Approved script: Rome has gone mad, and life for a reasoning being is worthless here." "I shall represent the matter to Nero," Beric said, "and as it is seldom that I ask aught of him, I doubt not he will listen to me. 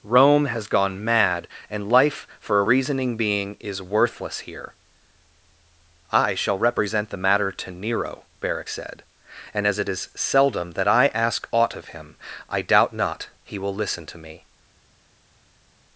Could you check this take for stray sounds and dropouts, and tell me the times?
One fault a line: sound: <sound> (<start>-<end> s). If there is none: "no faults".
no faults